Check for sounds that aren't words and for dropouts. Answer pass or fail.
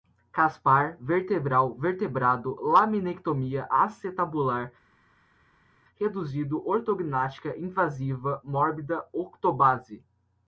pass